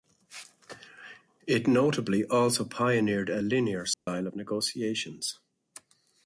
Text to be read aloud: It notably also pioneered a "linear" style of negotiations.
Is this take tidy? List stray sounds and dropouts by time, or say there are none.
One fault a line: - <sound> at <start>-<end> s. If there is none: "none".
- dropout at 3.9-4.1 s